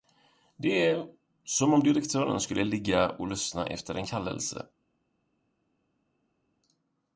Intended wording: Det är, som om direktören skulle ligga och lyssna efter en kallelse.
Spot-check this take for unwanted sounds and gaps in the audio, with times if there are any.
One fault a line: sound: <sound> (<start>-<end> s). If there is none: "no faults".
no faults